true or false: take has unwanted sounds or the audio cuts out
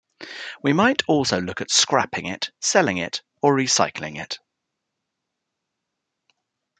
false